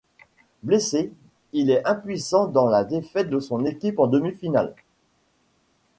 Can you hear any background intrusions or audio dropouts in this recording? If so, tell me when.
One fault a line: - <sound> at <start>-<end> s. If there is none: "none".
none